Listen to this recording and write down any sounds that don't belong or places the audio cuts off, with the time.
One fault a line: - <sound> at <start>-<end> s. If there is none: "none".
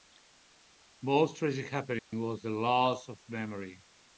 - dropout at 2.0-2.1 s